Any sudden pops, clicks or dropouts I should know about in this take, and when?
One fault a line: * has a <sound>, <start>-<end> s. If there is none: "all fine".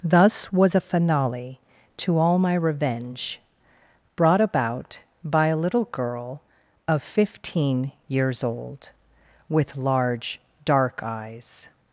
all fine